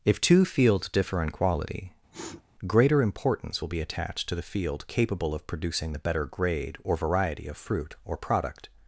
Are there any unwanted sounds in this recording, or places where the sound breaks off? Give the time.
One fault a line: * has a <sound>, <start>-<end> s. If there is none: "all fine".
* has a sniff, 2.1-2.4 s